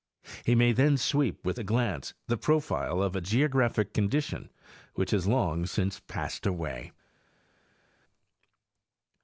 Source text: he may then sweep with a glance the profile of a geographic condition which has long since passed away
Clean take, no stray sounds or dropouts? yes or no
yes